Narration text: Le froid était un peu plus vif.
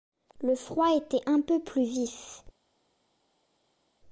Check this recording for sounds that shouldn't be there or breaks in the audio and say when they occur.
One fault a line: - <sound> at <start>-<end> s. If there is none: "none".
none